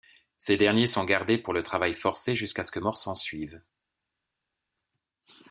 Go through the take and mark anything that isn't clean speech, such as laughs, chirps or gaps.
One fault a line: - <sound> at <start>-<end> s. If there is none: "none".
none